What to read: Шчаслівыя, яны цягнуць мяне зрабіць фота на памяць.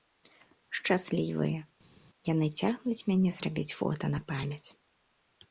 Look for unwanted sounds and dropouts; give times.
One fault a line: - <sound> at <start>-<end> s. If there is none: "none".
none